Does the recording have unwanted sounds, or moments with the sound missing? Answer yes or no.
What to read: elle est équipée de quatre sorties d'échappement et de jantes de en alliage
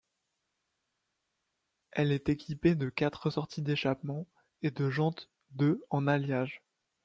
no